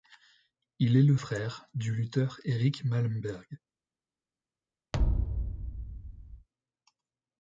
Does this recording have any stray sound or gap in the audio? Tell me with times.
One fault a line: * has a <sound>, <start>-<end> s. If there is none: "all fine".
* has a thud, 4.9-6.5 s